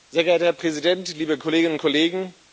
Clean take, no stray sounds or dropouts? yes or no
yes